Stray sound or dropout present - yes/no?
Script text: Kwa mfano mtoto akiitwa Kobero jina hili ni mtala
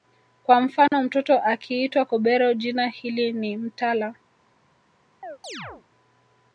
yes